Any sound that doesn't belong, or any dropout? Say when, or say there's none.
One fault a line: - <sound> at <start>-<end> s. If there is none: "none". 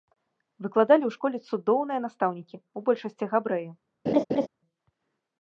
- laugh at 4.1-4.5 s